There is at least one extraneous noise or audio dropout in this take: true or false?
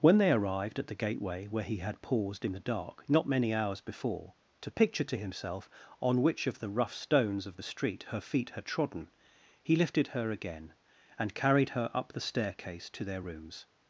false